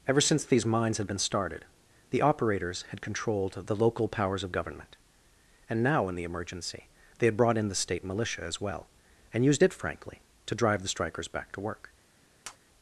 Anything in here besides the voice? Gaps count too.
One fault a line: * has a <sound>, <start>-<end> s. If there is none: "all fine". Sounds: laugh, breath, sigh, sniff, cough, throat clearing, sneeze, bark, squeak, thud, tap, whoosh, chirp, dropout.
* has a tap, 12.4-12.6 s